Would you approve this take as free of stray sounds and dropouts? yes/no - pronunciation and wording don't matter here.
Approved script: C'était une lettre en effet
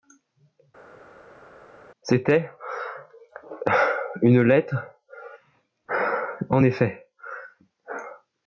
yes